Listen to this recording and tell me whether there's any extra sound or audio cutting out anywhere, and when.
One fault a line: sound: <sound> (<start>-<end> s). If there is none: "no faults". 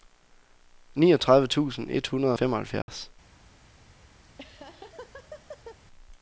sound: dropout (2.8-2.9 s)
sound: laugh (4.2-5.8 s)